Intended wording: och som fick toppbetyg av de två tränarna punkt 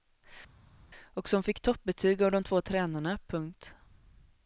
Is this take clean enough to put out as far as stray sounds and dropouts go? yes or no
yes